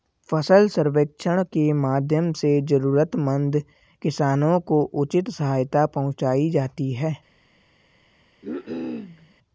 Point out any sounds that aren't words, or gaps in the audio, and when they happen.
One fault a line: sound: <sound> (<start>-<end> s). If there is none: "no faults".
sound: cough (8.4-9.3 s)